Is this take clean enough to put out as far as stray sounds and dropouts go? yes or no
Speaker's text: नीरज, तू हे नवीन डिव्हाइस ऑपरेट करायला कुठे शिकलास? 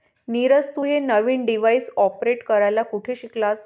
yes